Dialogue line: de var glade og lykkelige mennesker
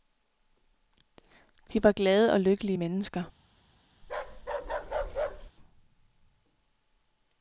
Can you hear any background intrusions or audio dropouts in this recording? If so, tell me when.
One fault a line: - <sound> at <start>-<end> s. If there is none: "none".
- bark at 4.0-5.5 s